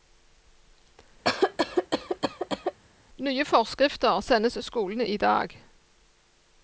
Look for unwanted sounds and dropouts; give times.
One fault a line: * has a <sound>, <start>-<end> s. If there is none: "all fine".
* has a cough, 1.2-2.8 s